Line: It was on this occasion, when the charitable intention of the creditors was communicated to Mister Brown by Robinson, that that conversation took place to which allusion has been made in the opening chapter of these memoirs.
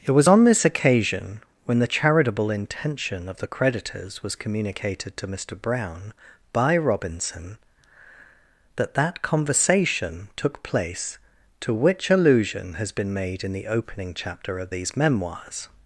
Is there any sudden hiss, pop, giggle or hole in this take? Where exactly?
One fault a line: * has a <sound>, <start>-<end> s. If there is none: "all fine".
all fine